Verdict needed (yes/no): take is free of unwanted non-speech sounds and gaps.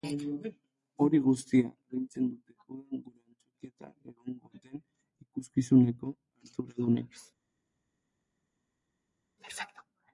yes